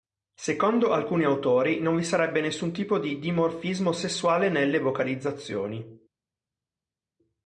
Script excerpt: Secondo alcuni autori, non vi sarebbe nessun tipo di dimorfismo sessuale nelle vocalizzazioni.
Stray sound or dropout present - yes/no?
no